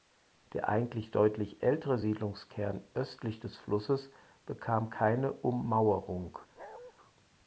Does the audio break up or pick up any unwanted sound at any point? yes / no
yes